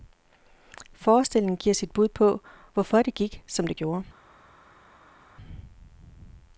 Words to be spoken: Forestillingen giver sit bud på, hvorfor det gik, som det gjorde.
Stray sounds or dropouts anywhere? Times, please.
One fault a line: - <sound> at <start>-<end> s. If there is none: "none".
none